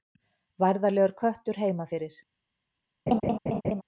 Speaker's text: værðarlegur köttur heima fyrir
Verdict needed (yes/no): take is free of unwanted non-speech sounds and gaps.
no